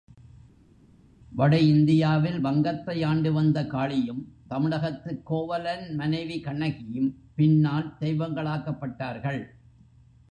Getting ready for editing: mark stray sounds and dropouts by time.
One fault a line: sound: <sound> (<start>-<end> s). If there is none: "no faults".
no faults